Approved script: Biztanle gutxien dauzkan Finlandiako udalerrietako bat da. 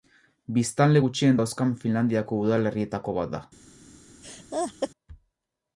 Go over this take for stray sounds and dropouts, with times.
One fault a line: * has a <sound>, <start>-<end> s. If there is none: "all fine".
* has a laugh, 4.2-4.9 s